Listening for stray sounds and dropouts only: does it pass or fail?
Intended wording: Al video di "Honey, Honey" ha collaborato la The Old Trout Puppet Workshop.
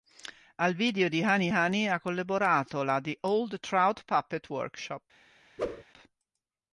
fail